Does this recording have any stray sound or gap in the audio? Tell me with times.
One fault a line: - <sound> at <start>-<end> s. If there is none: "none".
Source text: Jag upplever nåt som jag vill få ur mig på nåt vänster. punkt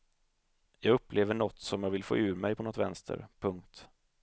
none